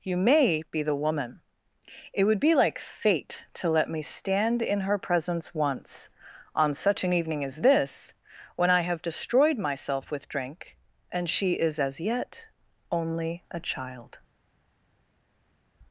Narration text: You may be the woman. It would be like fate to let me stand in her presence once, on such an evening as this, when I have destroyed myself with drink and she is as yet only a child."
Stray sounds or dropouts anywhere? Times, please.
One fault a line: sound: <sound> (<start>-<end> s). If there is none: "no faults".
no faults